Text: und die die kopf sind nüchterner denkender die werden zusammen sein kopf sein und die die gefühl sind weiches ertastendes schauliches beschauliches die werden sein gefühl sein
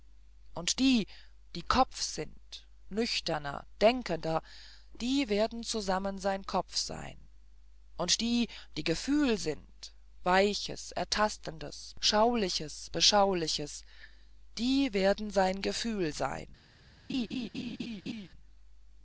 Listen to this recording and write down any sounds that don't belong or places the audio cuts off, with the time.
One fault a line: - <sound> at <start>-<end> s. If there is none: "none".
- laugh at 17.1-18.3 s